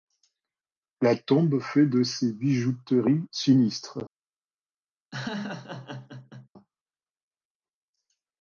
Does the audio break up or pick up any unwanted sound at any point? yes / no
yes